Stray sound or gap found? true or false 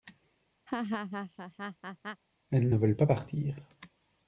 true